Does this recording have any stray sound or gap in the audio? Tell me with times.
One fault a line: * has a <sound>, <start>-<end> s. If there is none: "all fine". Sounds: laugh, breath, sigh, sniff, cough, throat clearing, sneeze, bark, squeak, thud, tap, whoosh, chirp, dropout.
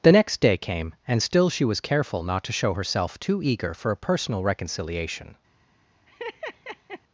* has a laugh, 6.1-7.0 s